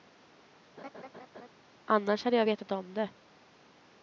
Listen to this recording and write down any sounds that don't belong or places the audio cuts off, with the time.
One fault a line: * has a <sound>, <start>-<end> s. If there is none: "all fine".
* has a laugh, 0.8-1.5 s